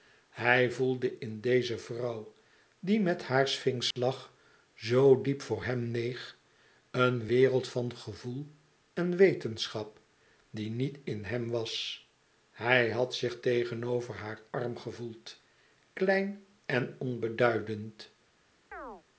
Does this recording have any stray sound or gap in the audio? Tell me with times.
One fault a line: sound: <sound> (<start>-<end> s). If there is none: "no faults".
sound: dropout (3.9-4.0 s)
sound: chirp (18.7-19.0 s)